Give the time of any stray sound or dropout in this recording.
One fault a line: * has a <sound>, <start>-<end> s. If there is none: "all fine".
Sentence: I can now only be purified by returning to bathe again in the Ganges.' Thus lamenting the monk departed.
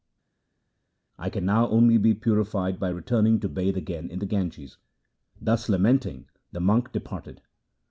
all fine